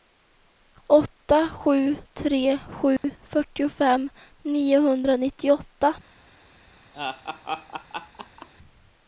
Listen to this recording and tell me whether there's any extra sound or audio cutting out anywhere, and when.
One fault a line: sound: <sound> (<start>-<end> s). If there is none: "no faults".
sound: dropout (3.0-3.0 s)
sound: laugh (6.9-8.5 s)